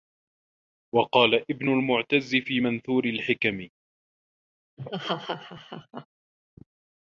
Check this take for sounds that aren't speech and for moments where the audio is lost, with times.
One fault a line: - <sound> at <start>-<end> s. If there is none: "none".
- laugh at 4.8-6.1 s